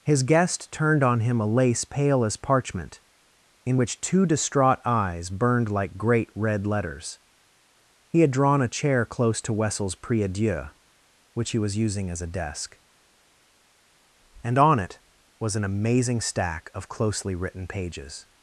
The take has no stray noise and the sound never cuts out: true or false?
true